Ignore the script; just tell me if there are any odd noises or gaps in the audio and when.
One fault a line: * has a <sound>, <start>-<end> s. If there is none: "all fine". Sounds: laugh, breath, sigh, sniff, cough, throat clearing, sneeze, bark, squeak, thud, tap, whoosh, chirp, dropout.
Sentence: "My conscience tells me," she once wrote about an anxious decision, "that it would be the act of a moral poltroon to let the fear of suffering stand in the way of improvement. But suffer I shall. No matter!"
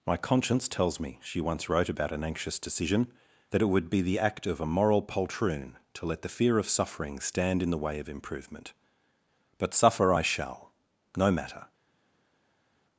all fine